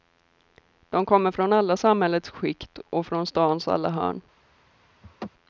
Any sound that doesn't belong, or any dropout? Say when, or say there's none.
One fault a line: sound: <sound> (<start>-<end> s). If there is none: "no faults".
sound: laugh (5.0-5.3 s)